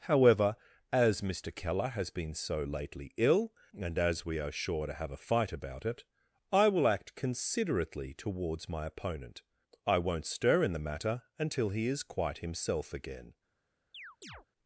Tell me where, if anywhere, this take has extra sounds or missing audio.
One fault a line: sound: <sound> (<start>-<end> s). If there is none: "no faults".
sound: chirp (13.9-14.5 s)